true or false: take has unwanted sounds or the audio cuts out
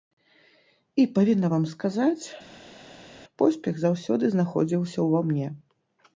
false